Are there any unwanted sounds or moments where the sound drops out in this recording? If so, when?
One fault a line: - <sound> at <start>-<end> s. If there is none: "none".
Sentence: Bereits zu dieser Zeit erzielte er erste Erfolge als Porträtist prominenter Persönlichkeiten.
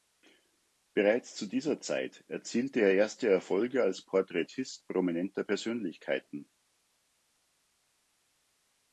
none